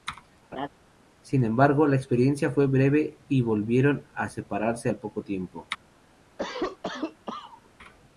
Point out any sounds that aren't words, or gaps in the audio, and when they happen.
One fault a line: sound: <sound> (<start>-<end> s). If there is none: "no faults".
sound: laugh (0.5-0.7 s)
sound: cough (6.4-7.7 s)